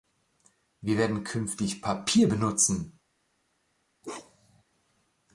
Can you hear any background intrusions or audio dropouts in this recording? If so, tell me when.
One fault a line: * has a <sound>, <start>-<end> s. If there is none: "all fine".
* has a bark, 4.0-4.6 s